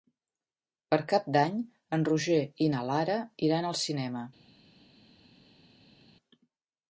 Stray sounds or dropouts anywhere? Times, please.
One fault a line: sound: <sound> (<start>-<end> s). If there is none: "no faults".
no faults